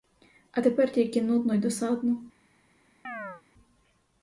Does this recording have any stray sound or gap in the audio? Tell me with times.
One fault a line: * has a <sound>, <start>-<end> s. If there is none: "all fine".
* has a chirp, 3.0-3.4 s